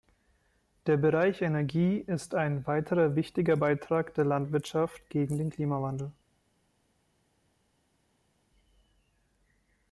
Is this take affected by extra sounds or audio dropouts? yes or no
no